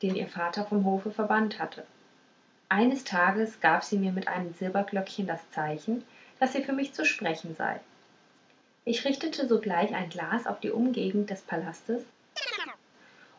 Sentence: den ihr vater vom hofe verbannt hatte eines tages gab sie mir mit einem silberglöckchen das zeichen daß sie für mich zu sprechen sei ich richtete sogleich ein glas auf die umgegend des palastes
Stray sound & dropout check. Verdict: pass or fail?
fail